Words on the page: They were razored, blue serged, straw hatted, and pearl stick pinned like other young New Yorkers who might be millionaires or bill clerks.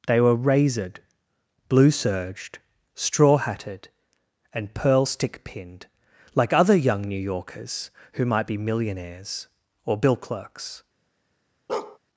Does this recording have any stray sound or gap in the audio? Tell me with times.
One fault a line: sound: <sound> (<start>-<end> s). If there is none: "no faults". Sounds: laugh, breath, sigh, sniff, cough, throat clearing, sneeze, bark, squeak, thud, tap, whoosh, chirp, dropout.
sound: bark (11.7-12.0 s)